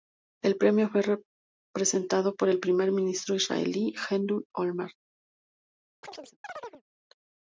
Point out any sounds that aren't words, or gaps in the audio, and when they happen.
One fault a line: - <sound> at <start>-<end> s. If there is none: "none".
- chirp at 6.0-6.8 s